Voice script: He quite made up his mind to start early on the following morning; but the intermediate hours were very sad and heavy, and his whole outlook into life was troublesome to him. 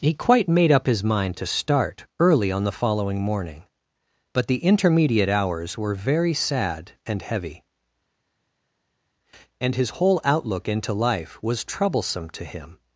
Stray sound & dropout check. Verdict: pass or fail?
pass